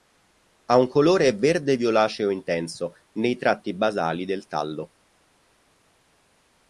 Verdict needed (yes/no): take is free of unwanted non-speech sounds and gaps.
yes